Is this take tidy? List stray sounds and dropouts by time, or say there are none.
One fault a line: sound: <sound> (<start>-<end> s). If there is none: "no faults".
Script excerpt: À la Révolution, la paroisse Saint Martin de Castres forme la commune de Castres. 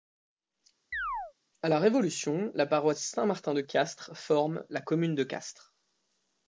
sound: chirp (0.9-1.3 s)